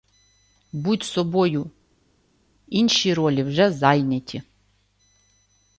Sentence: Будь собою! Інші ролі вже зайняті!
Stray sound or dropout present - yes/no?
no